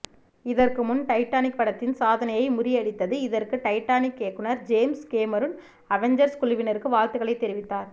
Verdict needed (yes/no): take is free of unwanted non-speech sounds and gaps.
yes